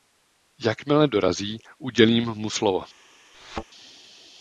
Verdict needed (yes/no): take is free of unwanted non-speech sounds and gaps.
no